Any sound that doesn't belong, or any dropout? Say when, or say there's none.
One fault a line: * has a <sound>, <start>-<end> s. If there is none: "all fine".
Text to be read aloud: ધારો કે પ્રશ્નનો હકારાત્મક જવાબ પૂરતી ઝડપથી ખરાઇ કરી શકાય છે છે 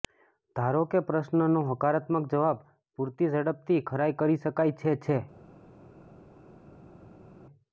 all fine